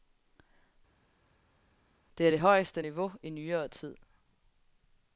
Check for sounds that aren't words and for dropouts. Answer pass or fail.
pass